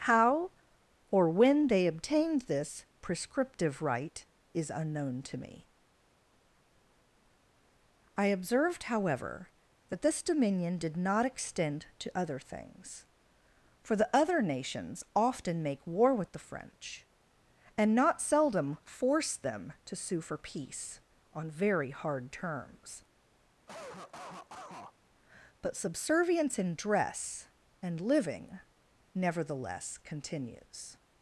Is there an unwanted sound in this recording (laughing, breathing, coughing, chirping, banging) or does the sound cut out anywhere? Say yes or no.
yes